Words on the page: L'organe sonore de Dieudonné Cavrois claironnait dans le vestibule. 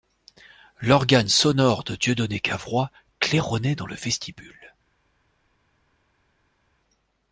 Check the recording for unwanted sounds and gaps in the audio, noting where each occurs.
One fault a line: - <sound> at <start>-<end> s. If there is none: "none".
none